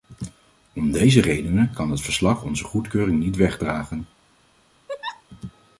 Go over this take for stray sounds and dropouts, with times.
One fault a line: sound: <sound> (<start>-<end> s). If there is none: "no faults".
sound: laugh (4.9-5.2 s)